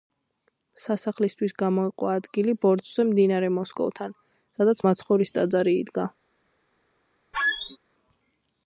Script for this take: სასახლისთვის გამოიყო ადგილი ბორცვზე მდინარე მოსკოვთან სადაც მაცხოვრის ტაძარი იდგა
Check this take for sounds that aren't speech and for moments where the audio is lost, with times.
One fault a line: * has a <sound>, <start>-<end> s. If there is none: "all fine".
* has a squeak, 7.3-7.8 s